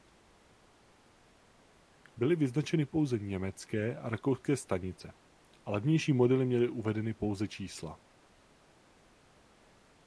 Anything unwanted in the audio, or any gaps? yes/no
no